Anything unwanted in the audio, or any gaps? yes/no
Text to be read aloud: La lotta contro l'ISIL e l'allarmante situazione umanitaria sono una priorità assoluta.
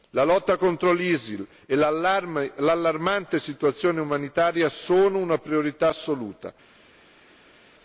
no